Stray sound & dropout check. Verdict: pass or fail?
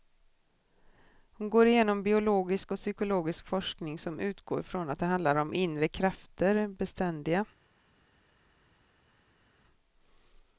pass